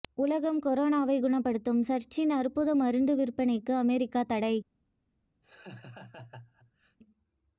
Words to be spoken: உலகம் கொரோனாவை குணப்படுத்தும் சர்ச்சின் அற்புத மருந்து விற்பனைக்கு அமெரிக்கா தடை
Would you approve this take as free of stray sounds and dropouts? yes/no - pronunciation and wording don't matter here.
no